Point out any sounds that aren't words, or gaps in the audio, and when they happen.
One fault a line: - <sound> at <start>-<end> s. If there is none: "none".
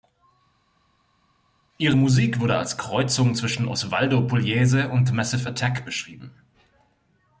none